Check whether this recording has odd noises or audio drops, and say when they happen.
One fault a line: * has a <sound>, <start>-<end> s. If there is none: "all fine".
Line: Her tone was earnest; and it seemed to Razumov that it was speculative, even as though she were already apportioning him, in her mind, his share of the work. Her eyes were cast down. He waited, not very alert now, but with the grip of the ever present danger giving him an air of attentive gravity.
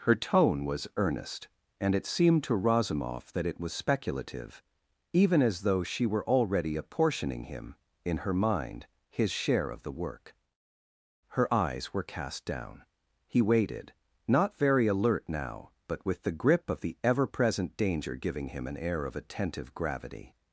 all fine